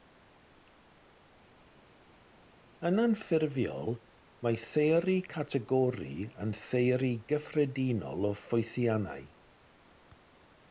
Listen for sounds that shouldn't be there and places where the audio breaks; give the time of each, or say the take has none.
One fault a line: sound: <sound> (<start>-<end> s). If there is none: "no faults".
no faults